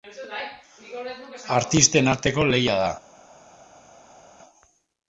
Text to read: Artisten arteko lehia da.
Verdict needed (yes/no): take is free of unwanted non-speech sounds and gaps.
yes